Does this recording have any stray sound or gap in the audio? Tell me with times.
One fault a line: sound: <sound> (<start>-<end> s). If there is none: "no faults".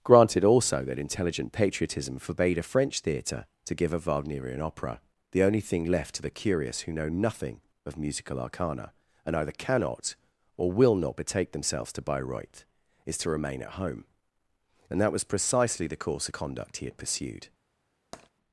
sound: tap (18.1-18.3 s)